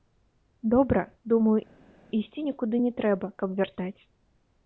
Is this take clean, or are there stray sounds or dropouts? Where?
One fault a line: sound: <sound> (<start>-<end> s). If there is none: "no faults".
no faults